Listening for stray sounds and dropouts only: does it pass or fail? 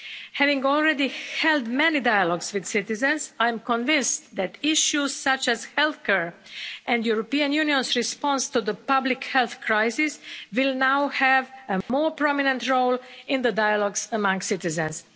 fail